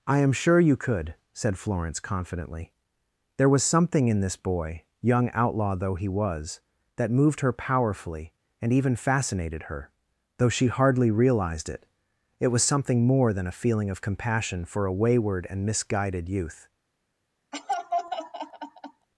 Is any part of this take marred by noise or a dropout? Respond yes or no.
yes